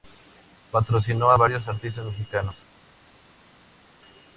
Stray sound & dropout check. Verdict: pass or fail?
pass